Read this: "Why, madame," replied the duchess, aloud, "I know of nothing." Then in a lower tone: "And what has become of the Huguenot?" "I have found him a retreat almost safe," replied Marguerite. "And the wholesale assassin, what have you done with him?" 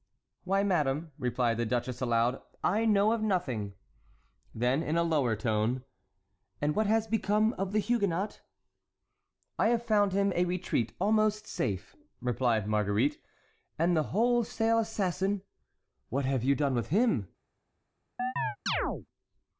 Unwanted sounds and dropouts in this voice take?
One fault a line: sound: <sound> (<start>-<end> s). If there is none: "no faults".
sound: chirp (18.2-19.1 s)